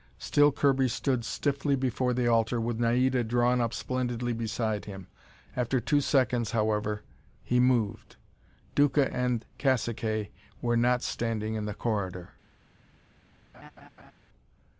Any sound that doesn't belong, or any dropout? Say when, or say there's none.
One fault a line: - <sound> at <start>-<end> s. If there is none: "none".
- laugh at 13.5-14.1 s